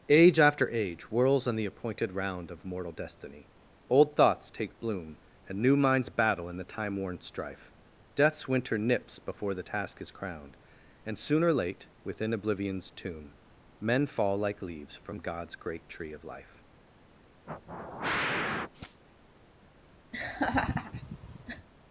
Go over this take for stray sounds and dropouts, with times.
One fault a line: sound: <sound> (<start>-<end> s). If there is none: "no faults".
sound: sniff (17.5-19.0 s)
sound: laugh (20.1-21.7 s)